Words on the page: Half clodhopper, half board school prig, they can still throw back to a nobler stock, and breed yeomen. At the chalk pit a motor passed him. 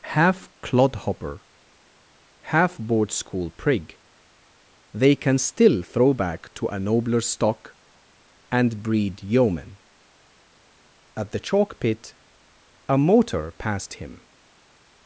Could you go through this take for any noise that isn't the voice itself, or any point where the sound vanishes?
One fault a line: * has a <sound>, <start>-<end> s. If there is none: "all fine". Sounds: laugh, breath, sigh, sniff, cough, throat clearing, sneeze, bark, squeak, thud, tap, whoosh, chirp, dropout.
all fine